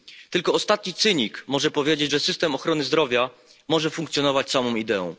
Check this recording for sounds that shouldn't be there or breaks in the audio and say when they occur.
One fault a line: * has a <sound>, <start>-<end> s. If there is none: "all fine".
all fine